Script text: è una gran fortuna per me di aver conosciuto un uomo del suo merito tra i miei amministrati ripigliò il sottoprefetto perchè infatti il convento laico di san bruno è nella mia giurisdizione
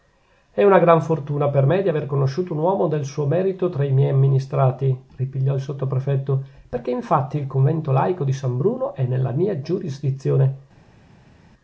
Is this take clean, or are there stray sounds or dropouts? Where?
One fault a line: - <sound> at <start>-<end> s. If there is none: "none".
none